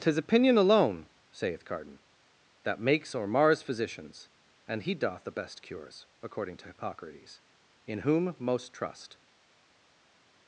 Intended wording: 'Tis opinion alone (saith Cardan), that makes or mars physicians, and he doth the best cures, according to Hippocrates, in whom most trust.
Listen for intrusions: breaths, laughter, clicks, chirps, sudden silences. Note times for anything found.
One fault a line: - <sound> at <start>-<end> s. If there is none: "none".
none